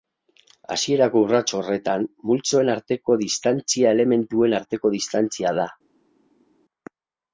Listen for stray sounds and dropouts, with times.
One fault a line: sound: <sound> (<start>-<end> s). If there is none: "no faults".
no faults